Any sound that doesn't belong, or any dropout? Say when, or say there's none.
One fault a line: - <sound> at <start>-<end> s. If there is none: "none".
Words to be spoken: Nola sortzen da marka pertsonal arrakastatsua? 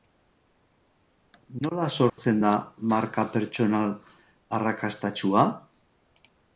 - dropout at 2.1-2.2 s